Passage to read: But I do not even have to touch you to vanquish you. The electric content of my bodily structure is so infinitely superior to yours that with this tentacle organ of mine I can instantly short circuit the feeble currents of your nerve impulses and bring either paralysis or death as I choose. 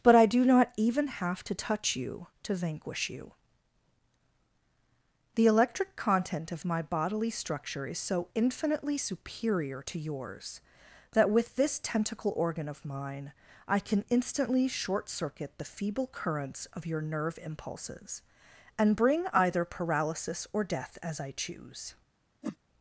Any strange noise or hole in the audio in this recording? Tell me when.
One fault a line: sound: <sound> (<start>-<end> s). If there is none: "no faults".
sound: whoosh (22.4-22.6 s)